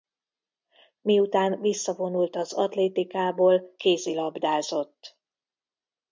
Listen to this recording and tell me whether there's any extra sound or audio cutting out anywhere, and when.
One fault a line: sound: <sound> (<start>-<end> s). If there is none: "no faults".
no faults